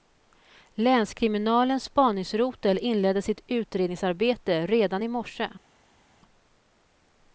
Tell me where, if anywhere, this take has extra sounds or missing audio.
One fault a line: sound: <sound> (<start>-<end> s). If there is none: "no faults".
no faults